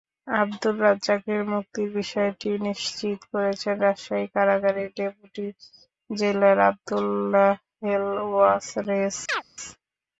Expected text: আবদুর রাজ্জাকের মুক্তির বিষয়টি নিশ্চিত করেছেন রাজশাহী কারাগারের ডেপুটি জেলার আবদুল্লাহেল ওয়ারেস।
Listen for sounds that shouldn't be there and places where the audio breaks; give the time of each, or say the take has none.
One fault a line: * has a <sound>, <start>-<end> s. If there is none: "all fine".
* has a chirp, 9.3-9.4 s